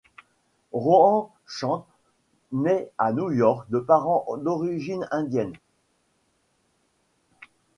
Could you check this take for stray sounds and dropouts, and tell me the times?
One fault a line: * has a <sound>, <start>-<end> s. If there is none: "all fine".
all fine